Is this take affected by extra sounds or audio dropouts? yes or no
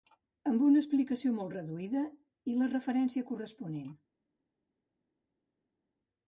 no